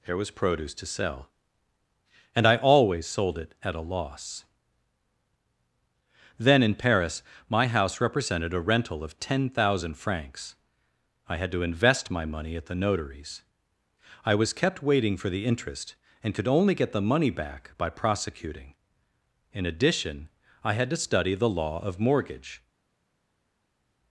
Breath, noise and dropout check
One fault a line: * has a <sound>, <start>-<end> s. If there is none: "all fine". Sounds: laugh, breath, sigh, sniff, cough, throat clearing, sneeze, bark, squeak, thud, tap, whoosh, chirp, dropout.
all fine